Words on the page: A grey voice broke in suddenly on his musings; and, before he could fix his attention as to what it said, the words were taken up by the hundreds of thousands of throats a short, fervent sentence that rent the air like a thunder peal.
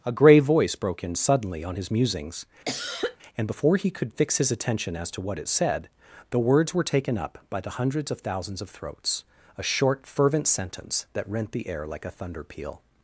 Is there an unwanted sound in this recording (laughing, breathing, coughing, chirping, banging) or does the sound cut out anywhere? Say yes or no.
yes